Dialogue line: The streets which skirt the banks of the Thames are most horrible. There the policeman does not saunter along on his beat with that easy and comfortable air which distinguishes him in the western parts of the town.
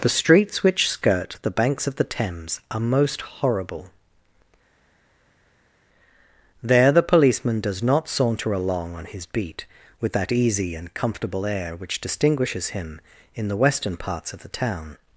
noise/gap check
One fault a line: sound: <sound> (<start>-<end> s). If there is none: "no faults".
no faults